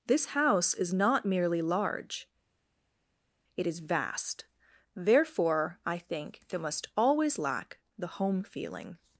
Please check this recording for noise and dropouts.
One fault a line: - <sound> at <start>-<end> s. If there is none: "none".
none